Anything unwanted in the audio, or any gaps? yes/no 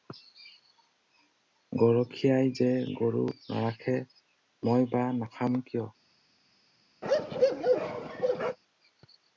yes